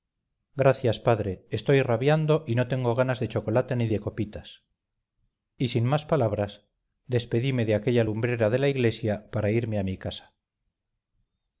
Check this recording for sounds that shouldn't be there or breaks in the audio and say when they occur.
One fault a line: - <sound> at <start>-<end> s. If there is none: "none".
none